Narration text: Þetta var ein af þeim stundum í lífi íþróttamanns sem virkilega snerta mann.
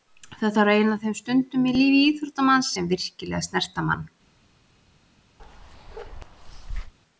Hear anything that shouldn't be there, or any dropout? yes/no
yes